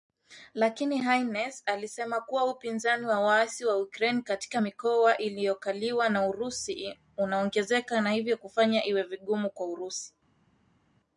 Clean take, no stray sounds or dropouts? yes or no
yes